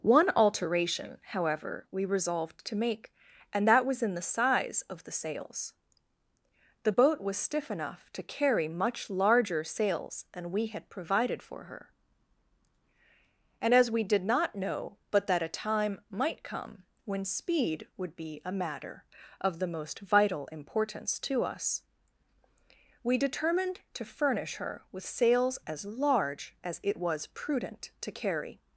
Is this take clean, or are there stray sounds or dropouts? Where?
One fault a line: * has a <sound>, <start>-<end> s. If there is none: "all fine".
all fine